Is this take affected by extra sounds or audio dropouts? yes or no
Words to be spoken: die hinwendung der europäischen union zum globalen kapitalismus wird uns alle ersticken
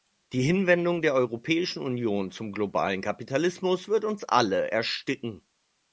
no